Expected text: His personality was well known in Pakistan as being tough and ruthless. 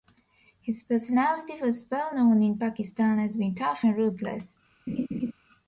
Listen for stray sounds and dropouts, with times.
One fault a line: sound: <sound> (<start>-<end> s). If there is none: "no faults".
sound: laugh (4.9-5.3 s)